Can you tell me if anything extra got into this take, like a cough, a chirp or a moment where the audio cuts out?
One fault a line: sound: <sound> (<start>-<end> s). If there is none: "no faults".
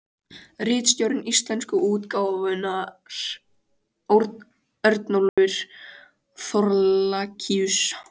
sound: dropout (5.3-5.4 s)